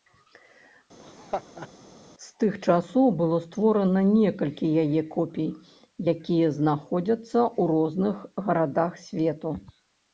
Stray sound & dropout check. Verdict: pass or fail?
fail